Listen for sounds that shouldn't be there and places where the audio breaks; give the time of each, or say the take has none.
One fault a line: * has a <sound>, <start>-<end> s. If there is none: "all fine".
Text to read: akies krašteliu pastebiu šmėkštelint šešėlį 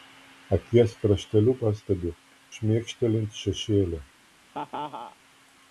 * has a laugh, 4.5-5.2 s